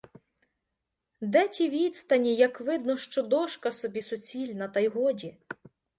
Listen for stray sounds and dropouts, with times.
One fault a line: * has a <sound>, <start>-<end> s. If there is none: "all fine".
all fine